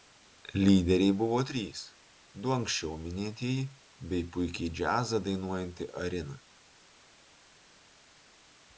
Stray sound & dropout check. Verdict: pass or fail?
pass